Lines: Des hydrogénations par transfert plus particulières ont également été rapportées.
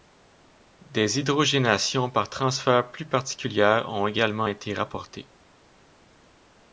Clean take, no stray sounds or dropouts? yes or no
yes